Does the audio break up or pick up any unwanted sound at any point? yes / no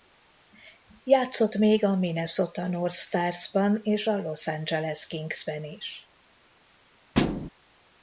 yes